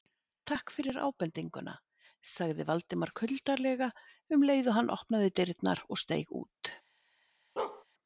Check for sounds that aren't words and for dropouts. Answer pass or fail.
fail